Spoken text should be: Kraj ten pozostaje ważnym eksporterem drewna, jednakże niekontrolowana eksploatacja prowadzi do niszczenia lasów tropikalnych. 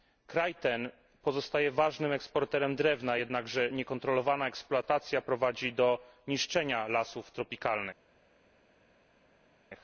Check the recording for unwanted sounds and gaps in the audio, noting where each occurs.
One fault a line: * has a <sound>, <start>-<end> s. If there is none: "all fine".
all fine